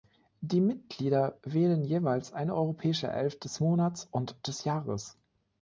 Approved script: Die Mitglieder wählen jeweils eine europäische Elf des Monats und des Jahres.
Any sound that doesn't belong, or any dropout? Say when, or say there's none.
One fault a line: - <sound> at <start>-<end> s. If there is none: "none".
none